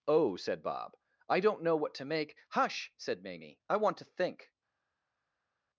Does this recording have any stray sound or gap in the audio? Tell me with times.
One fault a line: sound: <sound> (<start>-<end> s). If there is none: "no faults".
no faults